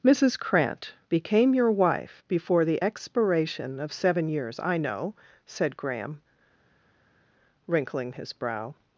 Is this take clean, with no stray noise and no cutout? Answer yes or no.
yes